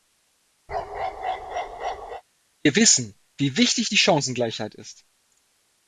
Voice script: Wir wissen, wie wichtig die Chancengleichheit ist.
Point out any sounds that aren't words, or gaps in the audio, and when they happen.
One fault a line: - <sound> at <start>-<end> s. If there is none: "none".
- bark at 0.7-2.2 s